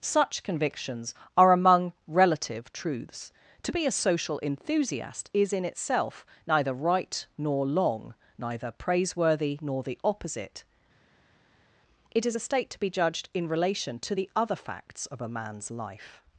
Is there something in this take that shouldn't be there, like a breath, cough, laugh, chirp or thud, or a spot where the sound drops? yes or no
no